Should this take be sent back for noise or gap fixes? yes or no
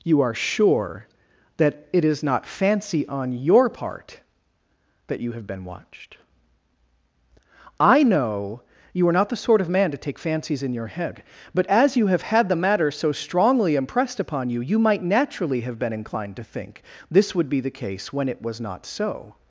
no